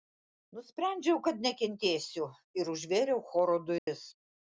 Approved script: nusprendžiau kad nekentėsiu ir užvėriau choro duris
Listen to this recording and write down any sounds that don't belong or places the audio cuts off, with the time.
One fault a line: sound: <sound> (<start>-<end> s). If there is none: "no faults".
sound: dropout (3.8-3.9 s)